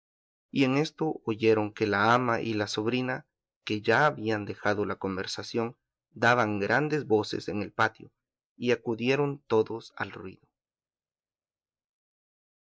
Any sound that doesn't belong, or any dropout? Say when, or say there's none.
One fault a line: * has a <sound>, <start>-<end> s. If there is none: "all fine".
all fine